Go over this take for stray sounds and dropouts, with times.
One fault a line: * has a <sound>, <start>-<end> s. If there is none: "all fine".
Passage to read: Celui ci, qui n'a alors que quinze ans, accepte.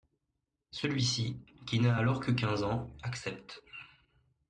all fine